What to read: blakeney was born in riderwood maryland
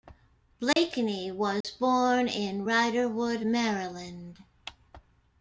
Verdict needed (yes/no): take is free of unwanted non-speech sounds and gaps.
no